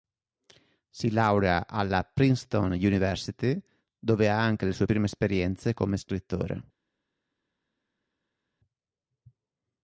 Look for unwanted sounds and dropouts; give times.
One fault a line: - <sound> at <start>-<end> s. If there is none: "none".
none